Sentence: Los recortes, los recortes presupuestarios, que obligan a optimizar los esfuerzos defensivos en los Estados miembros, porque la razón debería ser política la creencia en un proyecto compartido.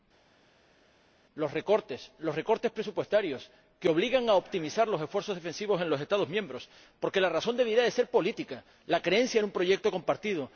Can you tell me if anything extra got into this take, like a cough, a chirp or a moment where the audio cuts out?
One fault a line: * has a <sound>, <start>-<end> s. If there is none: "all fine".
all fine